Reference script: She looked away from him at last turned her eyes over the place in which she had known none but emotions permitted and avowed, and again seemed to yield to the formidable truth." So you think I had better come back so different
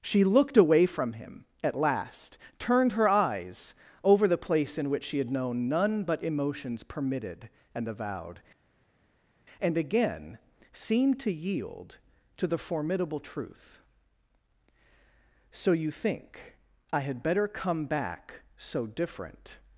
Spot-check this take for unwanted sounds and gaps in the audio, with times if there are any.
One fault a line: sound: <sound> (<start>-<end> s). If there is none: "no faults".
no faults